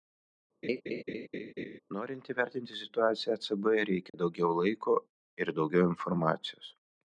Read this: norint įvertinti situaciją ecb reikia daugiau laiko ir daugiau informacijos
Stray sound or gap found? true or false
true